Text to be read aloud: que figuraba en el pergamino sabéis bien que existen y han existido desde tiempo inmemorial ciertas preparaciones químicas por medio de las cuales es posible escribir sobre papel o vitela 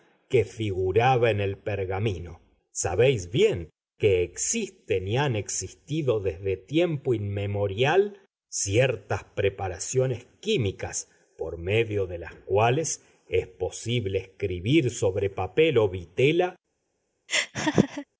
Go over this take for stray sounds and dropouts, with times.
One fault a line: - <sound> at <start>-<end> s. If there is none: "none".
- laugh at 17.3-18.1 s